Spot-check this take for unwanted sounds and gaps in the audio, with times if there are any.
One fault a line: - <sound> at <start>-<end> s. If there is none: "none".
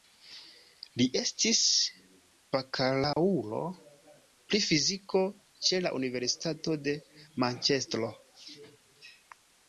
- dropout at 3.1-3.2 s